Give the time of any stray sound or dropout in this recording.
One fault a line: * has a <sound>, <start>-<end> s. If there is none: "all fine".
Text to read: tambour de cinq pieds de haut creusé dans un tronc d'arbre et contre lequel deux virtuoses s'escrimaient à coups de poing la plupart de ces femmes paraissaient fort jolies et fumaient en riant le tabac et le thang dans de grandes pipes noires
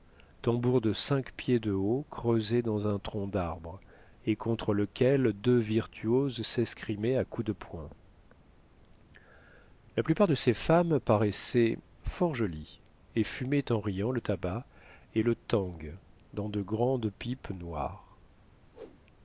* has a whoosh, 18.7-19.0 s